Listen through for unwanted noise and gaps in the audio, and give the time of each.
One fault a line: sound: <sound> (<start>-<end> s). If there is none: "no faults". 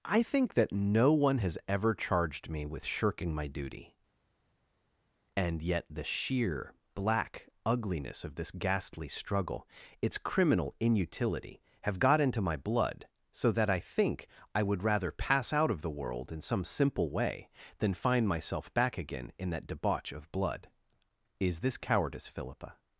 no faults